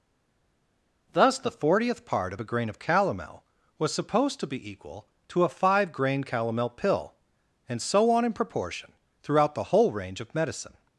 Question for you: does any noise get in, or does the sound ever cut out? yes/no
no